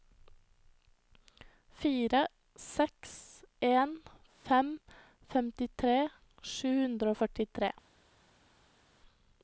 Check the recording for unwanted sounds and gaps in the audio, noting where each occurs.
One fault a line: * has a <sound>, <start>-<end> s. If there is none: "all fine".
all fine